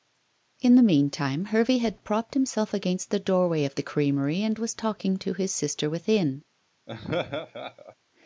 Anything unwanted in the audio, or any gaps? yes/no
yes